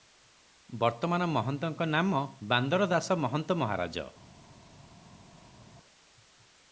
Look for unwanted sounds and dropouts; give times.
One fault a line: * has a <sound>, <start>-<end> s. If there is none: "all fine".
all fine